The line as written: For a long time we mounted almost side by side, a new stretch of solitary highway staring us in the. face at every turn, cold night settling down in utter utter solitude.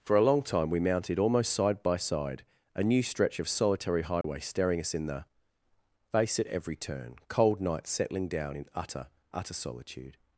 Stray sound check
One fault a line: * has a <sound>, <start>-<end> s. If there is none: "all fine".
* has a dropout, 4.2-4.2 s